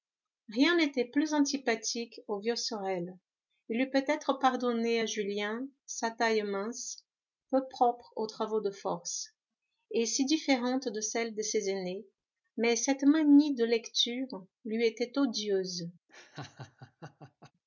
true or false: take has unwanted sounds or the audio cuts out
true